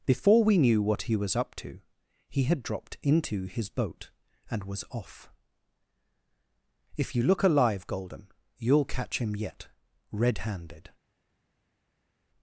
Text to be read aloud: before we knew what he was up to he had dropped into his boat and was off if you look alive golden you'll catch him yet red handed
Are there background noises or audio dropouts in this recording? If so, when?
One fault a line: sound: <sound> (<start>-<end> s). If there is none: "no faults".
no faults